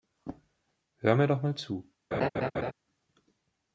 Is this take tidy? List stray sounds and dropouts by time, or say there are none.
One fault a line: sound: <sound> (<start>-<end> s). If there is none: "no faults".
sound: laugh (2.1-2.7 s)